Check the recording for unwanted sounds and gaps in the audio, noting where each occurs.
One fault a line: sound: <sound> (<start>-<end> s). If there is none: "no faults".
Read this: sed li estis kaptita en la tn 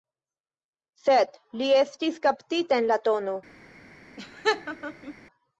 sound: laugh (4.2-5.1 s)